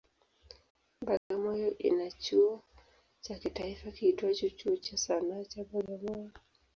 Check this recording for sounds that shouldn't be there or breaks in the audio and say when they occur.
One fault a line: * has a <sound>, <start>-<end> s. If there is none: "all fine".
* has a dropout, 1.2-1.3 s